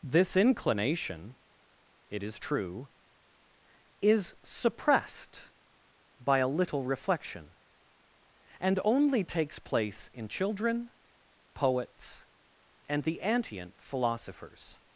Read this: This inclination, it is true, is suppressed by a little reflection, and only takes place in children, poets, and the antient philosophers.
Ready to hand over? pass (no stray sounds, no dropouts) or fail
pass